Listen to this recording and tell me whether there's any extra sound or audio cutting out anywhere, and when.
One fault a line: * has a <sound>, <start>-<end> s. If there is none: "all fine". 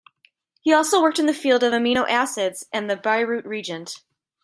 all fine